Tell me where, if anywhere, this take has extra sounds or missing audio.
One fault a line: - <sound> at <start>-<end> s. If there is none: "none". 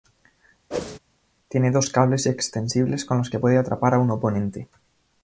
- whoosh at 0.7-1.0 s